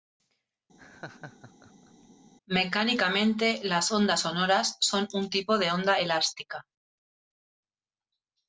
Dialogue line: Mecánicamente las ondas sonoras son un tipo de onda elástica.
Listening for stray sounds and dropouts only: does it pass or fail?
fail